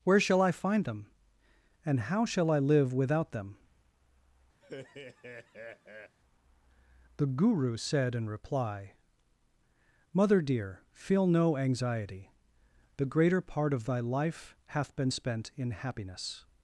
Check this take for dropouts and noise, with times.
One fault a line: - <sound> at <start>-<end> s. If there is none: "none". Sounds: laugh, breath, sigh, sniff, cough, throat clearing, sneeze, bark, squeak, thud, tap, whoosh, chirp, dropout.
- laugh at 4.6-6.2 s